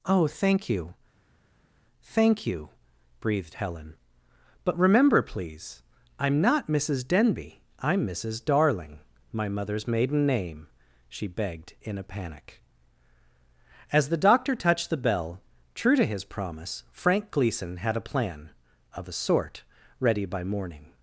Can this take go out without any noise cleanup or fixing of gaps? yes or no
yes